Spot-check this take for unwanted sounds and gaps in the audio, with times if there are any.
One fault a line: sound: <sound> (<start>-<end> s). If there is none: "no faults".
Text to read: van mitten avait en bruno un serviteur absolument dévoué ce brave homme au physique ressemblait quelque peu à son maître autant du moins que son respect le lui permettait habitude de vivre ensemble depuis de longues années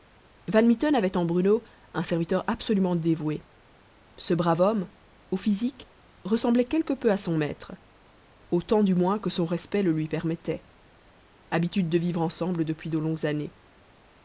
no faults